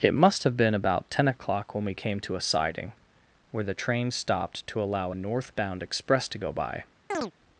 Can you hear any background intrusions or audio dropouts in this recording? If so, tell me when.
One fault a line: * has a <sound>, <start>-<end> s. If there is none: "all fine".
* has a chirp, 7.1-7.3 s